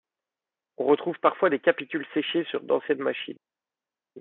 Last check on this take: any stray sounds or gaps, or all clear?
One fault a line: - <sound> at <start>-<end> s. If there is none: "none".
none